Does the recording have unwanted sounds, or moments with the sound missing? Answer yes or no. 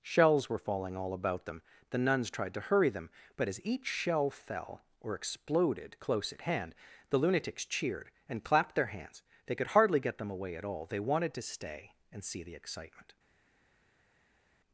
no